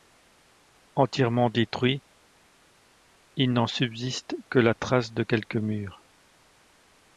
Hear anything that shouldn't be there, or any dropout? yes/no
no